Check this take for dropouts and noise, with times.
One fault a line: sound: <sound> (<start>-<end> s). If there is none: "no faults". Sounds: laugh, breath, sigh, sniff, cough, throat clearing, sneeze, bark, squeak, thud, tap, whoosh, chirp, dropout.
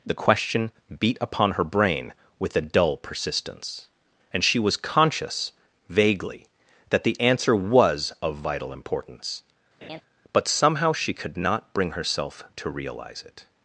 sound: laugh (9.8-10.0 s)